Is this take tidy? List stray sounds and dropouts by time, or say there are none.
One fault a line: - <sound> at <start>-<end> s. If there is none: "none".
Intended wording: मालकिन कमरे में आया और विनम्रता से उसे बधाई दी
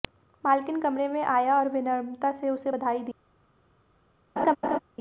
- laugh at 4.4-4.8 s